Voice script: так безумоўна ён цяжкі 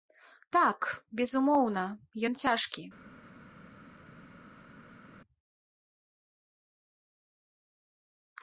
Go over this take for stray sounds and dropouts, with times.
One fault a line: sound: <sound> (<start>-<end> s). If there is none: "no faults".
no faults